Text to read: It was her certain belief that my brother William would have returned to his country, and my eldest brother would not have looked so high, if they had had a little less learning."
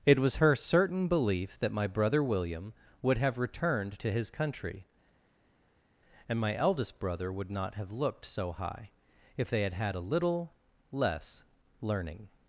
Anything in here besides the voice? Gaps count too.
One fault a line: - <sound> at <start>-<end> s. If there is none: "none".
none